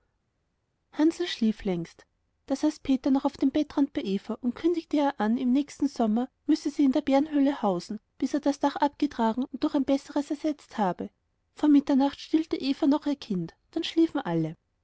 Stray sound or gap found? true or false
false